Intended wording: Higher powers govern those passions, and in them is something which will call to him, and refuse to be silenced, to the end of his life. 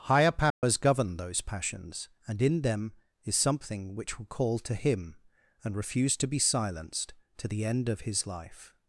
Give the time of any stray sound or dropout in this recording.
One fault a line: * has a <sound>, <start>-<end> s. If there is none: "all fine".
* has a dropout, 0.5-0.6 s